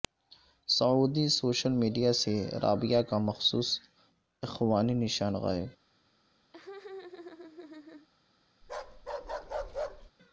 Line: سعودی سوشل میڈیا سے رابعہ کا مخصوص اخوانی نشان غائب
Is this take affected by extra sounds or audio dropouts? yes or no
yes